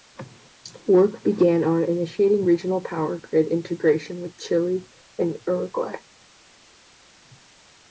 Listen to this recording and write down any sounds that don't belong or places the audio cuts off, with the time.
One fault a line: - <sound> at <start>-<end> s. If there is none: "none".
none